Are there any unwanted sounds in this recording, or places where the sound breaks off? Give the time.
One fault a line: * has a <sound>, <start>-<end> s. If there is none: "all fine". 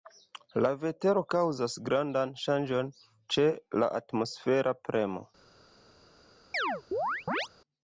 * has a chirp, 6.5-7.5 s